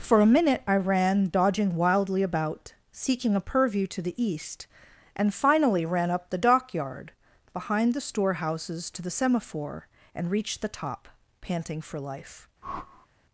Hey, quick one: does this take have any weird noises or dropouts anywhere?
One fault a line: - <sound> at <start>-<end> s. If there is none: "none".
- whoosh at 12.6-13.1 s